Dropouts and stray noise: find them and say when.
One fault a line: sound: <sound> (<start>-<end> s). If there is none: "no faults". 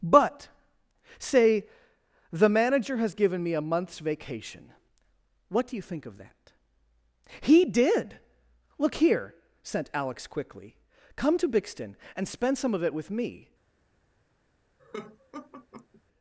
sound: laugh (14.8-16.0 s)